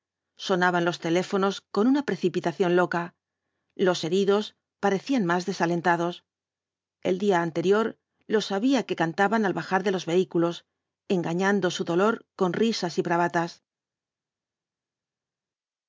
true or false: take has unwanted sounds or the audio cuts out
false